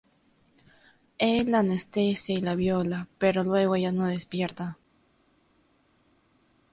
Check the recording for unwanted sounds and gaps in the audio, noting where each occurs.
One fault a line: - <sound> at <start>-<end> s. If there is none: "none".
none